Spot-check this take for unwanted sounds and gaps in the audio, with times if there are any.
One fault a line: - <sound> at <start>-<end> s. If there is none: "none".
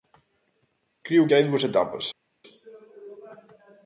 none